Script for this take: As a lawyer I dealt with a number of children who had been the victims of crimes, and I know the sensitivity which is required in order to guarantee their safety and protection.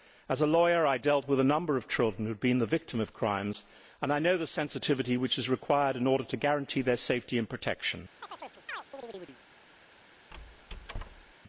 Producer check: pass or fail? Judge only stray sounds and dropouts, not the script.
fail